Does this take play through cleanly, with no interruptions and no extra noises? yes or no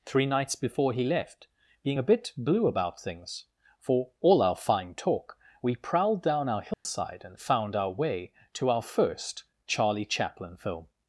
no